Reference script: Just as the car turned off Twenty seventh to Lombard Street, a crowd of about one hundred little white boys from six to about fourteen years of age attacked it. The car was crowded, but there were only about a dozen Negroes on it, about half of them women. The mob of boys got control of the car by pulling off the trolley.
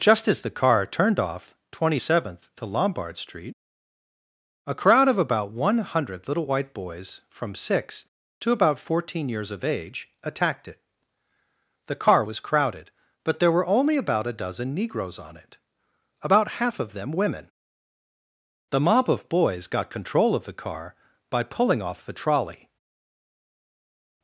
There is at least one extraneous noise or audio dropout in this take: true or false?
false